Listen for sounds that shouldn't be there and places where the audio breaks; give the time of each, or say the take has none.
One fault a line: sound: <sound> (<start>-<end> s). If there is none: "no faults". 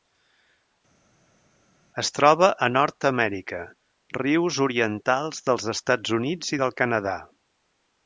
no faults